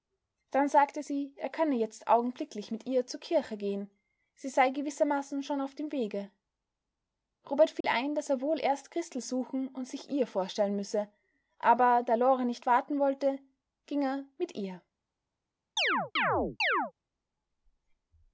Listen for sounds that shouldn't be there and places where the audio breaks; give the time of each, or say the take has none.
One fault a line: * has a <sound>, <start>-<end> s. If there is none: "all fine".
* has a dropout, 7.8-7.8 s
* has a chirp, 15.8-16.9 s